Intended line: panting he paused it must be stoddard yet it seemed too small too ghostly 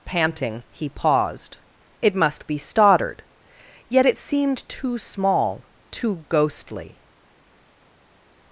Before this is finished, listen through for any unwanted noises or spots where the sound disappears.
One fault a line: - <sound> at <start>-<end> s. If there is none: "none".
none